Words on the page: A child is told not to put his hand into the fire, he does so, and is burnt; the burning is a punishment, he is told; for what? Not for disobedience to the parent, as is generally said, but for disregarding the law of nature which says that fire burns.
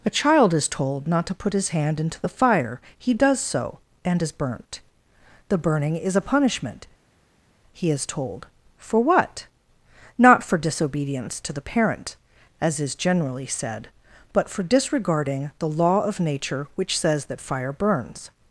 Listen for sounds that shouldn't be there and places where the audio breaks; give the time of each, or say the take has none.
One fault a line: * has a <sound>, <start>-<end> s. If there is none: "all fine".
all fine